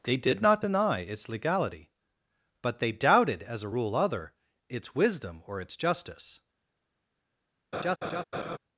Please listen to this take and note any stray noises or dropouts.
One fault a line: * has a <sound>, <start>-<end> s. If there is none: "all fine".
* has a laugh, 7.7-8.6 s